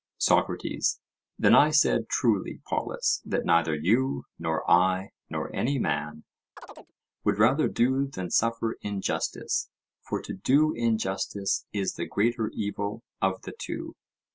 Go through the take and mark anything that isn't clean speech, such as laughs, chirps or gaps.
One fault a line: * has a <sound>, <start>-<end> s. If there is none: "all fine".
* has a chirp, 6.6-6.9 s